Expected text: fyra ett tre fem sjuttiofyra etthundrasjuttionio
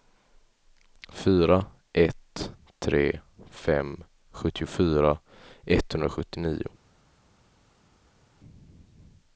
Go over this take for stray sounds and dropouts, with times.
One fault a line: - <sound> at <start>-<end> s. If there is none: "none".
none